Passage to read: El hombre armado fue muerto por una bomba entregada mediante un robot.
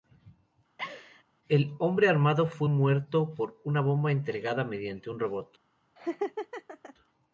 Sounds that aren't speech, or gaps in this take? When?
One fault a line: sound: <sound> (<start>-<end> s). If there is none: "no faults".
sound: laugh (0.8-1.2 s)
sound: laugh (6.0-6.9 s)